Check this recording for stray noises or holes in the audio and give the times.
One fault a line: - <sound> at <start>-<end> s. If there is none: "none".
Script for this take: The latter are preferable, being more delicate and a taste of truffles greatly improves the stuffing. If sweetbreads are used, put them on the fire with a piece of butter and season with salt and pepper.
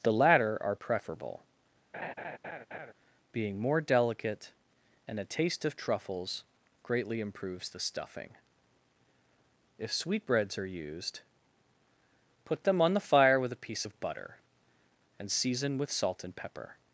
- laugh at 1.9-2.9 s